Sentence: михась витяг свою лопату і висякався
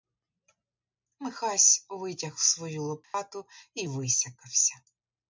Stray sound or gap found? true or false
true